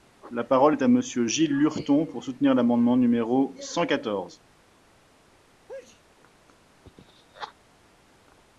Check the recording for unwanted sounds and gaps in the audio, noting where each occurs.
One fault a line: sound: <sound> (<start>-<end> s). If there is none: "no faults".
sound: sneeze (5.7-6.0 s)